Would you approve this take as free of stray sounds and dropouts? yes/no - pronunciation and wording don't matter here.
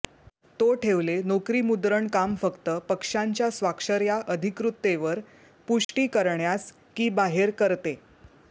no